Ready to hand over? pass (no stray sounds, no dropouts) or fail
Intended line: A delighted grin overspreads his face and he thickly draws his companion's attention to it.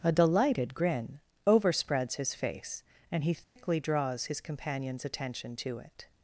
fail